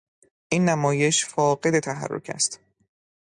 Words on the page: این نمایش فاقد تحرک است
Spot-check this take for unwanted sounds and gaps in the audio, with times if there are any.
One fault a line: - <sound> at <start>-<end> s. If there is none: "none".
none